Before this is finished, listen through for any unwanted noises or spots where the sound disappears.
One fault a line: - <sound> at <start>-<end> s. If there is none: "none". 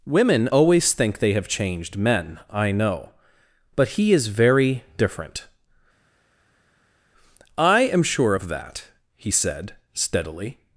none